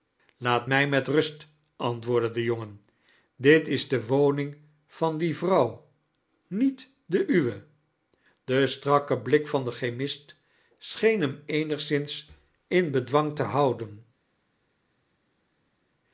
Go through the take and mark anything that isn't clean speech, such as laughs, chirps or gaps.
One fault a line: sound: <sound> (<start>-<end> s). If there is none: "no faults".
no faults